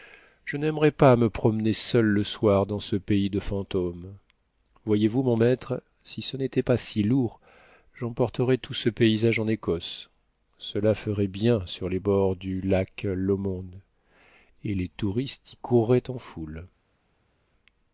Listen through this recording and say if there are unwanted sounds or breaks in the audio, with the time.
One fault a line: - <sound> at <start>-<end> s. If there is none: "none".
none